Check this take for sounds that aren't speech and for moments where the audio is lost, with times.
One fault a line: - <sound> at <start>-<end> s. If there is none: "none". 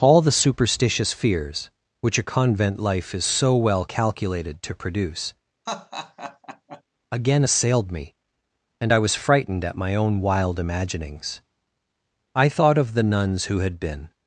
- laugh at 5.7-6.8 s